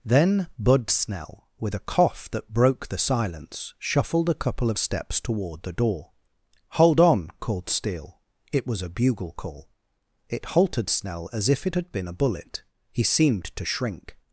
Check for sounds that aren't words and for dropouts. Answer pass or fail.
pass